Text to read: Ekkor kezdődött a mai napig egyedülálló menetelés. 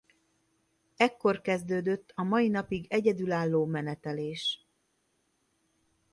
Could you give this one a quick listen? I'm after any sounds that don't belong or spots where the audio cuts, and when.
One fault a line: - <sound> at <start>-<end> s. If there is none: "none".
none